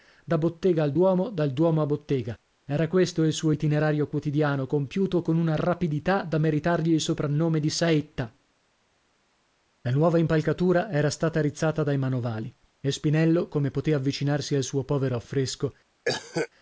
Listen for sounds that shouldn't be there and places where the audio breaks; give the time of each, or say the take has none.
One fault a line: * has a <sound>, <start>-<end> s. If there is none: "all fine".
* has a cough, 16.0-16.5 s